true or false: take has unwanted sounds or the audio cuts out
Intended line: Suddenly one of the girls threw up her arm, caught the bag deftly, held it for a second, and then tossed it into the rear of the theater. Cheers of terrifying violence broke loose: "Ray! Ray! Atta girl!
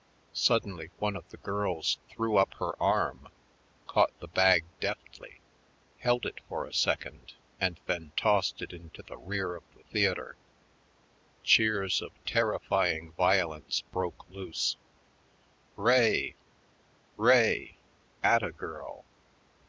false